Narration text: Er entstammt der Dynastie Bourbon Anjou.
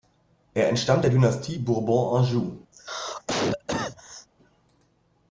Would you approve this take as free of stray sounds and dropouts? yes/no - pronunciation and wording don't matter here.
no